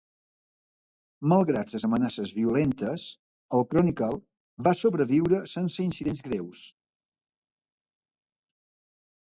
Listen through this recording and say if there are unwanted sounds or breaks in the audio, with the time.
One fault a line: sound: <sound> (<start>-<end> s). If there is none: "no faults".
no faults